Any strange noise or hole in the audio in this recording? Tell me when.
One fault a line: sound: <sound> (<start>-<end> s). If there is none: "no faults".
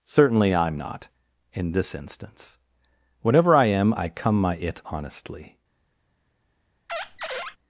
sound: squeak (6.9-7.6 s)